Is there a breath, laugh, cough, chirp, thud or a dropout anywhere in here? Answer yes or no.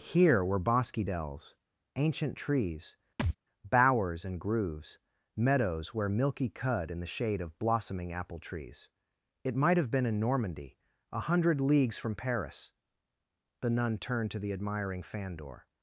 yes